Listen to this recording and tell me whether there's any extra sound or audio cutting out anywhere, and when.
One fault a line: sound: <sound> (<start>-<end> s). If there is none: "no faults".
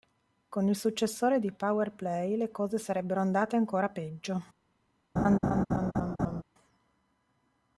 sound: laugh (5.2-6.4 s)